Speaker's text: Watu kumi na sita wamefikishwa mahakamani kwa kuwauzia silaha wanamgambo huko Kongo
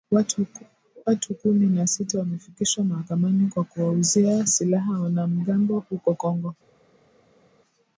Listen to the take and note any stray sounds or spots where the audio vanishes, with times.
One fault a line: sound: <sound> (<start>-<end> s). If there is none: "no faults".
no faults